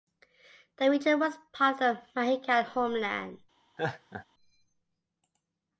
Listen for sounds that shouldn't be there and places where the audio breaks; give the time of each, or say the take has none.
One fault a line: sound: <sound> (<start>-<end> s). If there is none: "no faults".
sound: laugh (3.8-4.3 s)